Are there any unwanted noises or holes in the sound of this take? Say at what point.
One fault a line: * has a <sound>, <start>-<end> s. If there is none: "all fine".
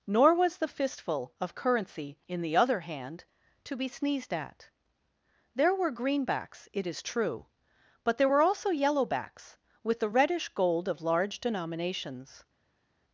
all fine